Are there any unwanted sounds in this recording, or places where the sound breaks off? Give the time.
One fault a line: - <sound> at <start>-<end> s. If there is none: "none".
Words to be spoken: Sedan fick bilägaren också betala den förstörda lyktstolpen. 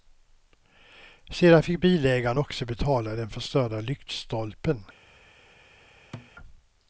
- thud at 6.1-6.3 s